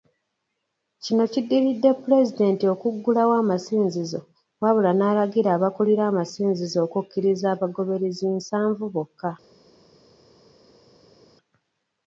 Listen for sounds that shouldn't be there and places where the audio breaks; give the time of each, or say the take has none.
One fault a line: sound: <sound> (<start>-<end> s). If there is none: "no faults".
no faults